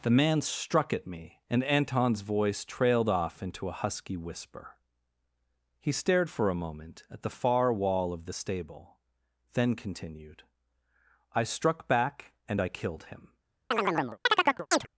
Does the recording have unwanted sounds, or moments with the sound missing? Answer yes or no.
yes